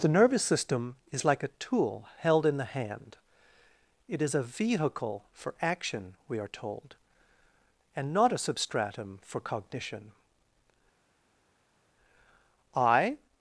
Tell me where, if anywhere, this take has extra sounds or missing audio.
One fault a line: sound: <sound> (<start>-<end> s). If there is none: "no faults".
no faults